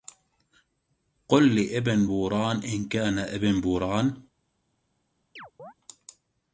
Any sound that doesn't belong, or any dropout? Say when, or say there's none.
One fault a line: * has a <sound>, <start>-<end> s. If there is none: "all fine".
* has a chirp, 5.4-5.7 s